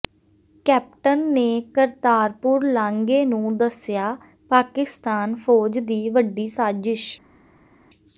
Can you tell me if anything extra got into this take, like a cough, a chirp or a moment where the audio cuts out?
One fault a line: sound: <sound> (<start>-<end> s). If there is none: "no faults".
no faults